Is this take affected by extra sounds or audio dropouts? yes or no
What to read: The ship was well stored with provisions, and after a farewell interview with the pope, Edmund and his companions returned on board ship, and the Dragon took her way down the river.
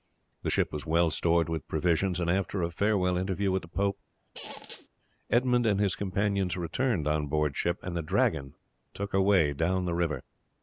yes